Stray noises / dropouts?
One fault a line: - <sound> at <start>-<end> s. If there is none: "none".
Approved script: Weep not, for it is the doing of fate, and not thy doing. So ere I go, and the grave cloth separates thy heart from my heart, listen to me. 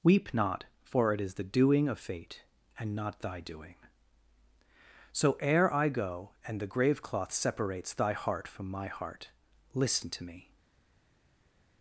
none